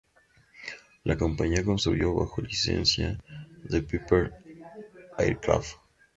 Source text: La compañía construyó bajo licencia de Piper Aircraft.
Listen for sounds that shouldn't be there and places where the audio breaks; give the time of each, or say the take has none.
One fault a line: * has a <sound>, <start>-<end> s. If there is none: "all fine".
all fine